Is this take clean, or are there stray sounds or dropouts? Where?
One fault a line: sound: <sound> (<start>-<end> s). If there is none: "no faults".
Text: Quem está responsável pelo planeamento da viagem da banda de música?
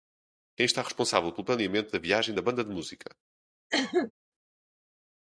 sound: cough (3.7-4.1 s)